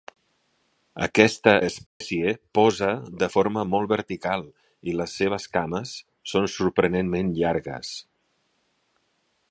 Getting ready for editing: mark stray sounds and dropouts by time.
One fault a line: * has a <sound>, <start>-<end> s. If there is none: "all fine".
* has a dropout, 1.9-2.0 s